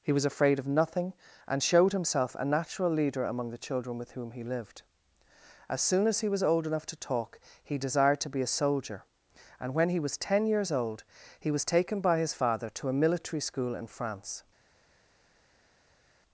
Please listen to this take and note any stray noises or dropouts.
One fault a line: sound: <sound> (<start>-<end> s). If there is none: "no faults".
no faults